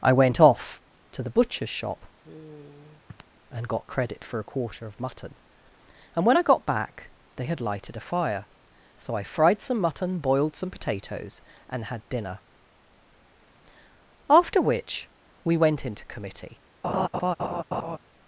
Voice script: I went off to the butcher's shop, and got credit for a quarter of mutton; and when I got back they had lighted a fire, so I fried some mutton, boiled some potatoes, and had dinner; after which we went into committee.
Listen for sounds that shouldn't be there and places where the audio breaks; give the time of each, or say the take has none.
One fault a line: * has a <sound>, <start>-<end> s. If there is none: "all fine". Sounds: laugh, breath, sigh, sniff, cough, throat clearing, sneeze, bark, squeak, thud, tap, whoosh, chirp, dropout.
* has a sigh, 2.2-3.2 s
* has a laugh, 16.8-18.0 s